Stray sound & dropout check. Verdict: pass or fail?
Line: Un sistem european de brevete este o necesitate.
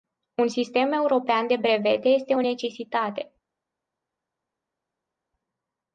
pass